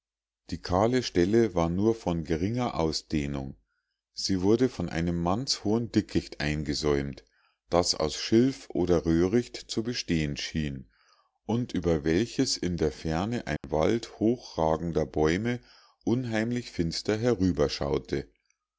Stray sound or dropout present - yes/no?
yes